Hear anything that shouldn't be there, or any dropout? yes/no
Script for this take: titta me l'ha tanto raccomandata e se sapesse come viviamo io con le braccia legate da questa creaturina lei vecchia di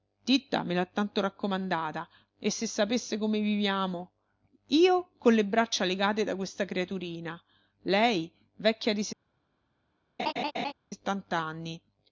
yes